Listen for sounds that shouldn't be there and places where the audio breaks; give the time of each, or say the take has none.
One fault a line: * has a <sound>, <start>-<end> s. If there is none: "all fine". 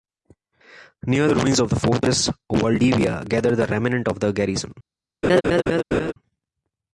* has a laugh, 5.2-6.1 s